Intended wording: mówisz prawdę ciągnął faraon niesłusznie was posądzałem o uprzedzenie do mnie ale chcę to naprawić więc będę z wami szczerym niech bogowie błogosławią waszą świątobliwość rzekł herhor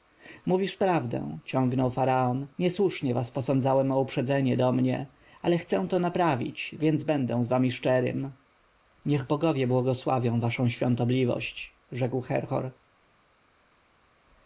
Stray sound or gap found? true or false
false